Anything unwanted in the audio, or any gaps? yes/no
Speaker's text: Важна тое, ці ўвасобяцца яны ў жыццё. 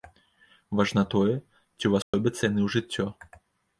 yes